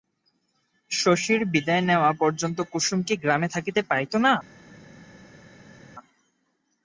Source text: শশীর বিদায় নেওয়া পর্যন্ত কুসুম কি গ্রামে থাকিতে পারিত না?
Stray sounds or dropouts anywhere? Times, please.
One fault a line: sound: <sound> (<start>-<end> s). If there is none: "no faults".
no faults